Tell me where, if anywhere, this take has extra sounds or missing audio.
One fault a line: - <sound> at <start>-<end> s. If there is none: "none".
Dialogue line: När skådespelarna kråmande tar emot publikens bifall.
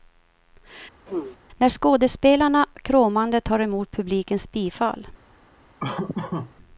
- throat clearing at 1.1-1.4 s
- laugh at 5.8-6.5 s